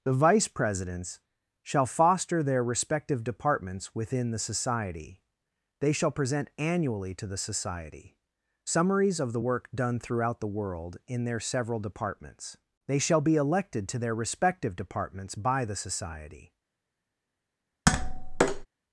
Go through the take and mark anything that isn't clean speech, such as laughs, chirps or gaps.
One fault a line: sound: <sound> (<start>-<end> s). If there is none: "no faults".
sound: tap (17.9-18.7 s)